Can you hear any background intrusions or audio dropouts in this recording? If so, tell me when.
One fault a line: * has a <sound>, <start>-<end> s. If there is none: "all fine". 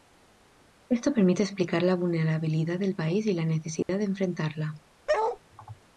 * has a dropout, 3.8-3.9 s
* has a bark, 5.1-5.4 s